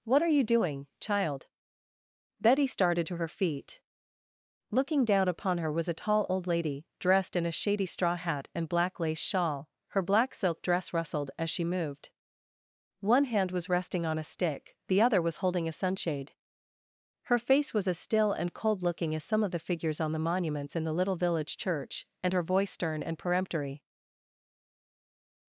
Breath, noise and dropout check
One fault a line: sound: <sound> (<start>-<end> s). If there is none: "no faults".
no faults